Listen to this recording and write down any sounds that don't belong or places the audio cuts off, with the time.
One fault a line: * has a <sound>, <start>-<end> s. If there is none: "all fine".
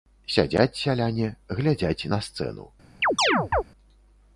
* has a chirp, 3.0-3.6 s